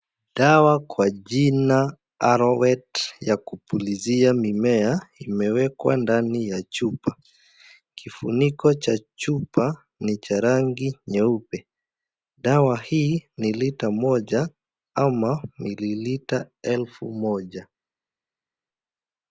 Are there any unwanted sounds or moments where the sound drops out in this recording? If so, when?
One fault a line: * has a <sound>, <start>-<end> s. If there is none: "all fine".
all fine